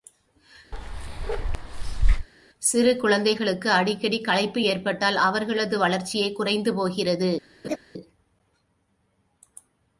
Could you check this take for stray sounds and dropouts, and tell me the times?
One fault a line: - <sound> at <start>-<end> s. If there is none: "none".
- bark at 0.7-2.3 s
- laugh at 7.6-7.8 s